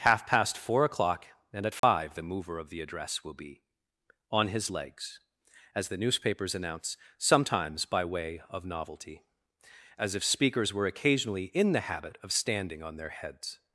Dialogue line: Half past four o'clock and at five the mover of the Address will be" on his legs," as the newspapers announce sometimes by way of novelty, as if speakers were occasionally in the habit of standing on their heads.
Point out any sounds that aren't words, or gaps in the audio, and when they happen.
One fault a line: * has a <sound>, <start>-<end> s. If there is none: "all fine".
* has a dropout, 1.8-1.8 s